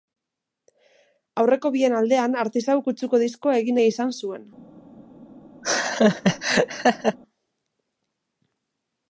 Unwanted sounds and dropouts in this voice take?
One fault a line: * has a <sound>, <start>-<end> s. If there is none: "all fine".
* has a laugh, 5.6-7.2 s